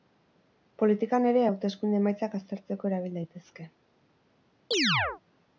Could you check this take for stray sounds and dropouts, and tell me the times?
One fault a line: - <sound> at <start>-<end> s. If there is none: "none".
- chirp at 4.7-5.2 s